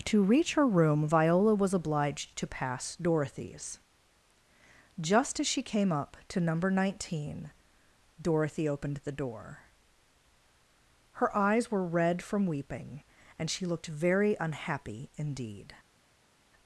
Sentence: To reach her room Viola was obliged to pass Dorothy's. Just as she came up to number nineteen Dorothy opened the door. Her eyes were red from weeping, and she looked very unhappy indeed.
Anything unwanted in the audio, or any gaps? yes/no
no